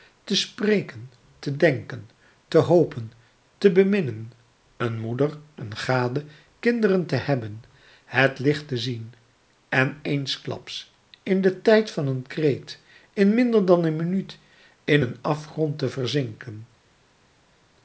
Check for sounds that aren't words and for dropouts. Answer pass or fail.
pass